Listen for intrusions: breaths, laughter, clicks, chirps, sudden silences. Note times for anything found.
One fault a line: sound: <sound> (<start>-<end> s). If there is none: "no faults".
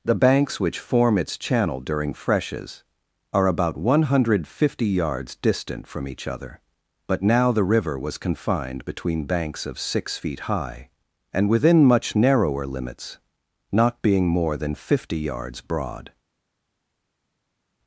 no faults